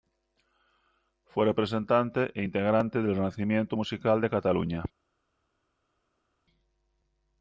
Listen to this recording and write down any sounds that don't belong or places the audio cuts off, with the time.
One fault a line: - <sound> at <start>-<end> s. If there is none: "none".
none